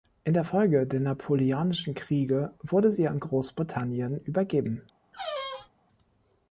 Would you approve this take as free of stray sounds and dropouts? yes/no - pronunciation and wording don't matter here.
no